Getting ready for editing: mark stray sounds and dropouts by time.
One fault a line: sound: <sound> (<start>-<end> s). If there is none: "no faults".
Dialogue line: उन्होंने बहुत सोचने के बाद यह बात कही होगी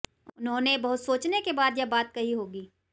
no faults